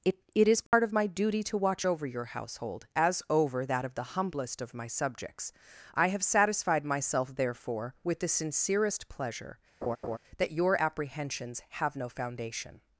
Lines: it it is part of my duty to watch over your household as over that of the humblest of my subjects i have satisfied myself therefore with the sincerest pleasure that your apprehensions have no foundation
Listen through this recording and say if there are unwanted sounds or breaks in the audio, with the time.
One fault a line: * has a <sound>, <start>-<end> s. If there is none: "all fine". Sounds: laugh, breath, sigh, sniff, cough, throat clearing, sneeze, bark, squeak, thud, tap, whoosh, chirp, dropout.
* has a dropout, 0.7-0.7 s
* has a laugh, 9.8-10.2 s